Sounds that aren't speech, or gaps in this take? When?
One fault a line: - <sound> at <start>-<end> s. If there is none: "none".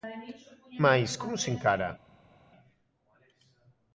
none